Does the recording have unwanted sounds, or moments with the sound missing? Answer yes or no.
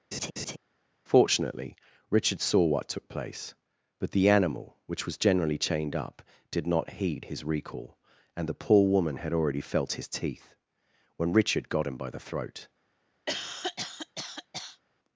yes